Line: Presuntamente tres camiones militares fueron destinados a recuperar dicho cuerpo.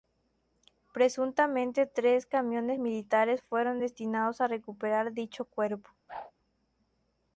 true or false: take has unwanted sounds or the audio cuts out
true